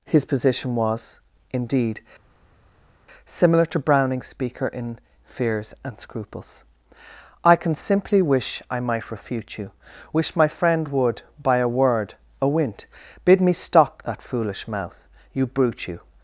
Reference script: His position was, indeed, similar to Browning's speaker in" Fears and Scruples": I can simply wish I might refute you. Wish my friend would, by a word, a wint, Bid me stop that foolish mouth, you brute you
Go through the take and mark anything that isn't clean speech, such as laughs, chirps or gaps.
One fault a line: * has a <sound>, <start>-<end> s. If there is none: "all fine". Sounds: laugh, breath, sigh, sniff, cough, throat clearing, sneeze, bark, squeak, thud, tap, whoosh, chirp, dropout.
all fine